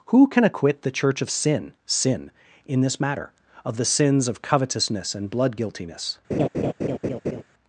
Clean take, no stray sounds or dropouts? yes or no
no